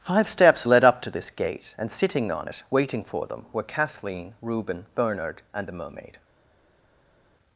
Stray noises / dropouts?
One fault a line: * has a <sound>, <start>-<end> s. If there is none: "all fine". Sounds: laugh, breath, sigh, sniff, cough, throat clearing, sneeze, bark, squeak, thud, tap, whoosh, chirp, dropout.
all fine